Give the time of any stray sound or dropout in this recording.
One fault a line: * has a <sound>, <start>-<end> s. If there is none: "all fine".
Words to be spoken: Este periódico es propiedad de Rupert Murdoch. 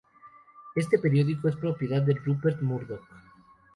all fine